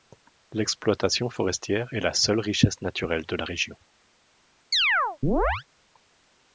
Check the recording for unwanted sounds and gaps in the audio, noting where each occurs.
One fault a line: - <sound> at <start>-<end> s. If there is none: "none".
- chirp at 4.7-5.6 s